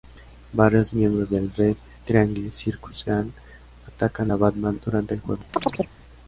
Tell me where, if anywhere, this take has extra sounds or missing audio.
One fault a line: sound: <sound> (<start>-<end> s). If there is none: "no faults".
sound: chirp (5.5-5.9 s)